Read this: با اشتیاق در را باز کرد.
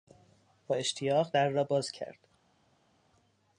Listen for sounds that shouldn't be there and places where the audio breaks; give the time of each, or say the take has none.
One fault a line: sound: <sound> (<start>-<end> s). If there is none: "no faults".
no faults